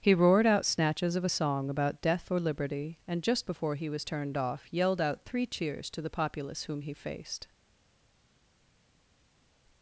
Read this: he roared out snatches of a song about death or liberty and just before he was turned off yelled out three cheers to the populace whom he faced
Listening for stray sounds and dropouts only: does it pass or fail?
pass